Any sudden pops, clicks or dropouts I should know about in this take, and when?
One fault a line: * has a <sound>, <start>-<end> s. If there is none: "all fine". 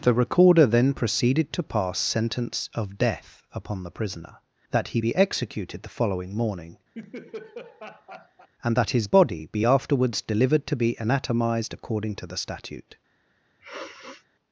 * has a laugh, 6.9-8.5 s
* has a sniff, 13.6-14.3 s